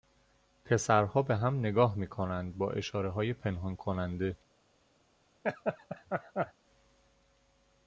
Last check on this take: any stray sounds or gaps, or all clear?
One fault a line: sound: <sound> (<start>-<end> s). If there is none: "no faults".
sound: laugh (5.4-6.5 s)